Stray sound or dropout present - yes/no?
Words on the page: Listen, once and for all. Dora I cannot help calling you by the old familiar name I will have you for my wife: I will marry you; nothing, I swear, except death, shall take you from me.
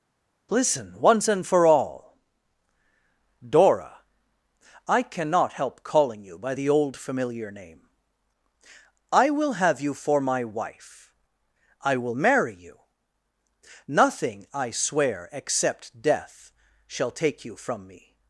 no